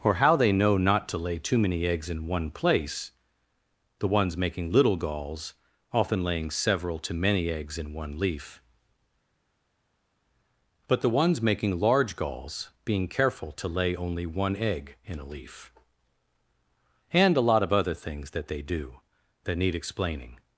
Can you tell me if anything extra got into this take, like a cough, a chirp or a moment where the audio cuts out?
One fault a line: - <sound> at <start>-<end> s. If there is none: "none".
none